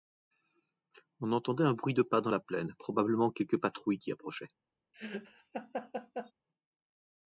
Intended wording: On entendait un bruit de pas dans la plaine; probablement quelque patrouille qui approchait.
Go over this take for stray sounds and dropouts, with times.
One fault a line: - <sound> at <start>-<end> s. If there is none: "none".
- laugh at 4.9-6.3 s